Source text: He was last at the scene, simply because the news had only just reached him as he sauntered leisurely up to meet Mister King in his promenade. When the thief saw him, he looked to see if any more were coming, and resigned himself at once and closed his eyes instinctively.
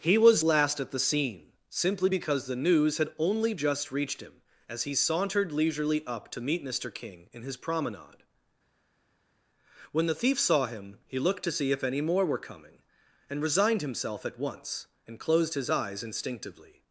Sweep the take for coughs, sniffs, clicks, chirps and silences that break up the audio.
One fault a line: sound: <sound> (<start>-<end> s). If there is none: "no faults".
no faults